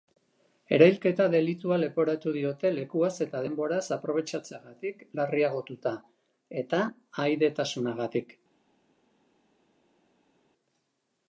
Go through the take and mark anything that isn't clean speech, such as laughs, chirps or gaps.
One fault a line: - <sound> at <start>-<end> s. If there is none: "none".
none